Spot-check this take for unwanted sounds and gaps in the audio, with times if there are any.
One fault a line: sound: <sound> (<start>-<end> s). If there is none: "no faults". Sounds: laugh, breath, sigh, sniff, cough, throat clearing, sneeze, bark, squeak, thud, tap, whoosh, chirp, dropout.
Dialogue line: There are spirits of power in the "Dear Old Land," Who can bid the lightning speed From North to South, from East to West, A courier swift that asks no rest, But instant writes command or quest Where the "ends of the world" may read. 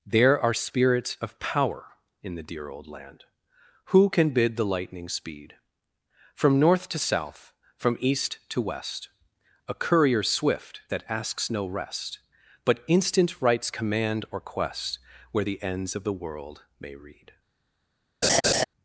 sound: laugh (18.2-18.6 s)